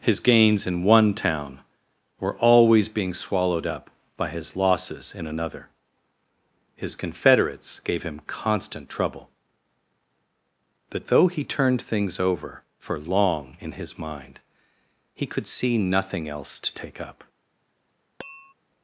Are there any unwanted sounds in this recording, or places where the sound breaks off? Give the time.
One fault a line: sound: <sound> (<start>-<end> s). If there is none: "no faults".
sound: tap (18.2-18.5 s)